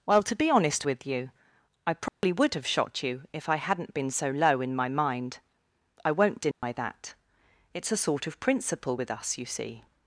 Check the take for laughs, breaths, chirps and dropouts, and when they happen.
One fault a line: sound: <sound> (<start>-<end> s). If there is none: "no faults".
sound: dropout (2.1-2.2 s)
sound: dropout (6.5-6.6 s)